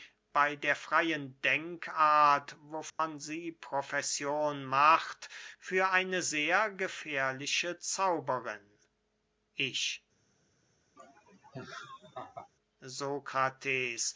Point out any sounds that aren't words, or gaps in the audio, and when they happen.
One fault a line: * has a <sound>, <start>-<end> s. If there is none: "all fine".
* has a dropout, 2.9-3.0 s
* has a laugh, 11.0-12.5 s